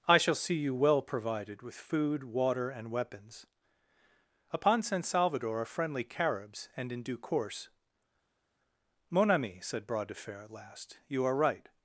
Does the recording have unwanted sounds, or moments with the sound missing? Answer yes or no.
no